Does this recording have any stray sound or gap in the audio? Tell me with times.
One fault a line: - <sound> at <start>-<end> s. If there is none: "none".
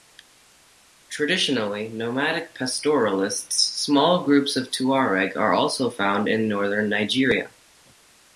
none